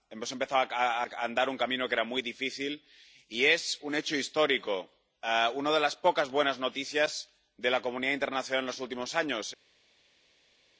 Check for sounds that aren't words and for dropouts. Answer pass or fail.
pass